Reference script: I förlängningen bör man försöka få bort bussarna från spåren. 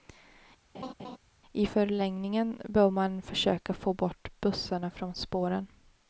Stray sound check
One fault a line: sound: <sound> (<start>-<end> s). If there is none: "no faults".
sound: laugh (0.7-1.2 s)